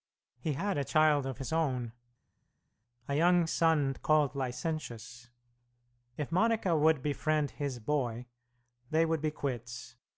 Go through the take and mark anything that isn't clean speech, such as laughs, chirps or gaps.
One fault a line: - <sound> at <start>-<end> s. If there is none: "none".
none